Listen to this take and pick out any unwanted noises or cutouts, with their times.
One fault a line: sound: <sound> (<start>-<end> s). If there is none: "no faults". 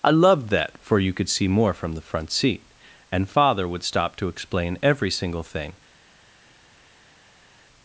no faults